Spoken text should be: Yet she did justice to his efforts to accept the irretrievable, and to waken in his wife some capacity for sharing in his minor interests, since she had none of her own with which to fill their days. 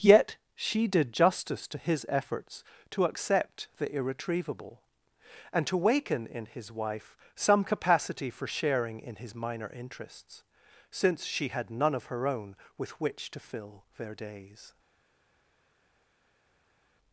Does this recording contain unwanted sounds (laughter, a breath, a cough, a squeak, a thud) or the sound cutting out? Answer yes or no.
no